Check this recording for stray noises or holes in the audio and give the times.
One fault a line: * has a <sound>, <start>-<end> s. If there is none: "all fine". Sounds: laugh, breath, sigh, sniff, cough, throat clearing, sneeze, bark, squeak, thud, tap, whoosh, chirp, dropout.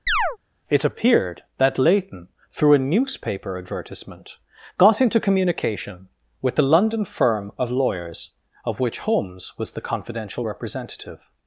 * has a chirp, 0.1-0.4 s